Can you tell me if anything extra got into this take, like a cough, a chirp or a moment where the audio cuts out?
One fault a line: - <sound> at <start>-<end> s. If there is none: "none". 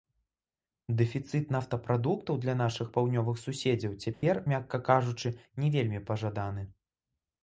- dropout at 4.1-4.2 s